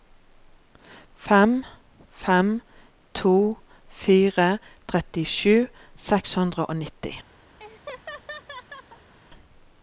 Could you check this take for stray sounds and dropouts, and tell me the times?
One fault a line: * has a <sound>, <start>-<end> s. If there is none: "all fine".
* has a laugh, 7.6-9.1 s